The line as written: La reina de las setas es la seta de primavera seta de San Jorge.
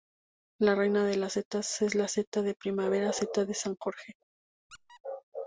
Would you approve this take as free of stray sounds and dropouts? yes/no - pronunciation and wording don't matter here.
no